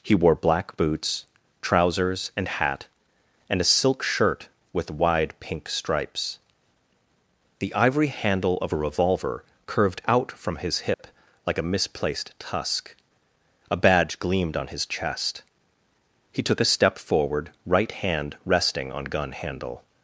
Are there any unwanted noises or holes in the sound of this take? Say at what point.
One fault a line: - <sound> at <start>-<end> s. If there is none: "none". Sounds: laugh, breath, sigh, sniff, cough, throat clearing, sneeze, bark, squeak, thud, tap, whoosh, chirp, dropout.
- dropout at 10.9-11.0 s